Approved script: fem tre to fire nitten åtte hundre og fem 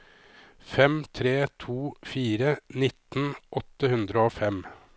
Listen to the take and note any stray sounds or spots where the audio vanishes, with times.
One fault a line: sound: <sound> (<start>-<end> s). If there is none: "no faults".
no faults